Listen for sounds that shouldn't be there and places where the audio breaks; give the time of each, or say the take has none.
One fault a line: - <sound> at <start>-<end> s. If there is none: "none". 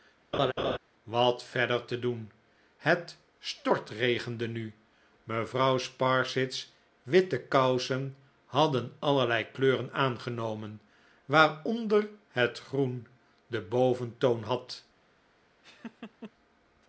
- laugh at 0.3-0.8 s
- laugh at 15.6-16.3 s